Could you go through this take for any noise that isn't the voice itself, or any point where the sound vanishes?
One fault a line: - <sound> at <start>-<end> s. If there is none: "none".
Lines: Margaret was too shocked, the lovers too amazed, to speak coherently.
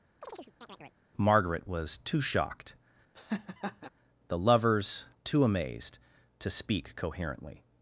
- chirp at 0.2-1.0 s
- laugh at 3.1-3.9 s